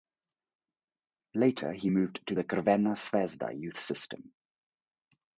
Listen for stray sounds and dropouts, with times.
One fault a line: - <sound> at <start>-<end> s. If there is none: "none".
none